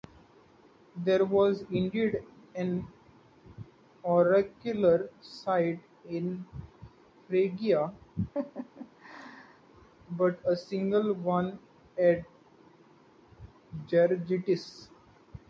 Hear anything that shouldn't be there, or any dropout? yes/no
yes